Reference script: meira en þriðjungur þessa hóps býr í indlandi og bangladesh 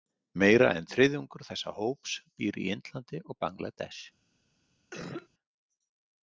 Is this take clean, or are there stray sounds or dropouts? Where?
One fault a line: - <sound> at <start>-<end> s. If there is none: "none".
- cough at 4.9-5.3 s